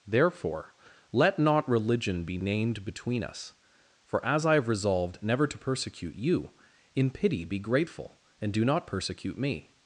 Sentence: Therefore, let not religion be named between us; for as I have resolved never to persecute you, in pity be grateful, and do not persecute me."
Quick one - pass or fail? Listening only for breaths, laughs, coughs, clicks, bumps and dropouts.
pass